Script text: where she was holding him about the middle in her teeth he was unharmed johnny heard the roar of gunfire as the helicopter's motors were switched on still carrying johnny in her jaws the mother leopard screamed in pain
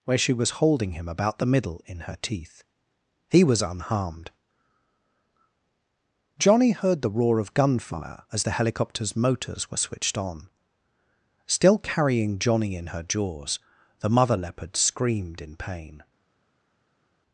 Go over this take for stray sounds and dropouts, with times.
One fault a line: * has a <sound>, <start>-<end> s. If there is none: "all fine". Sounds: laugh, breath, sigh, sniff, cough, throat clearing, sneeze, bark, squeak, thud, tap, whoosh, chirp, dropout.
all fine